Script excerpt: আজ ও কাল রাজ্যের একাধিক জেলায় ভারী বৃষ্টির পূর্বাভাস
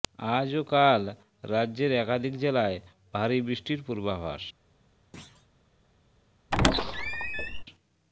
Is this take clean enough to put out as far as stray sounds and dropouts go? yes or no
no